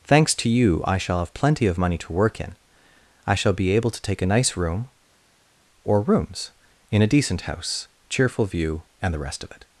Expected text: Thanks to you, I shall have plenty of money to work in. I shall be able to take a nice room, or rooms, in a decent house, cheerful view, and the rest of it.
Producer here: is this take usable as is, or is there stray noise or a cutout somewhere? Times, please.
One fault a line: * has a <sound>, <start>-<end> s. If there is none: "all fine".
all fine